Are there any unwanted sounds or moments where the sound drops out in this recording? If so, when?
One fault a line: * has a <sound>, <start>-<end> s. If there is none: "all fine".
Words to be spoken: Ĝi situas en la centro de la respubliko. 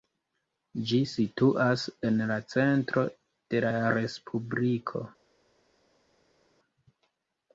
all fine